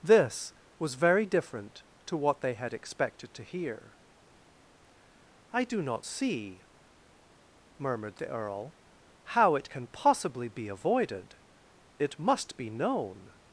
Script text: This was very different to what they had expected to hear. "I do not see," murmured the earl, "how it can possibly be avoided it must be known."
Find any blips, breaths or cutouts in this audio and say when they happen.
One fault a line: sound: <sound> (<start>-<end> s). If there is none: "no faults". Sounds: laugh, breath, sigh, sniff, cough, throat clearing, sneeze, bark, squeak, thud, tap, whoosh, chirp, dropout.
no faults